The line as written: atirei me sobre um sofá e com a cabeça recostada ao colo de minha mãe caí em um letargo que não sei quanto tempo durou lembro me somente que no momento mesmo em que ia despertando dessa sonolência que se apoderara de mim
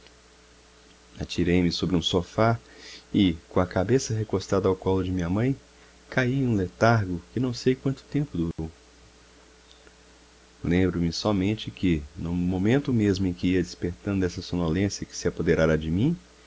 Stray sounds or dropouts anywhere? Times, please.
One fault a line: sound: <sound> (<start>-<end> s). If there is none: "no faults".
sound: dropout (8.5-8.6 s)